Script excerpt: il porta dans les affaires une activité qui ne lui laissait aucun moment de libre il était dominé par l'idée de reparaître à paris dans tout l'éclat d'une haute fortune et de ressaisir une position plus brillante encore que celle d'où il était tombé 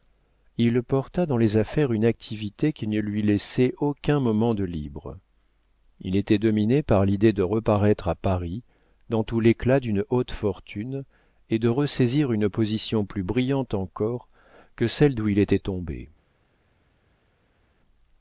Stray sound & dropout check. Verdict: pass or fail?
pass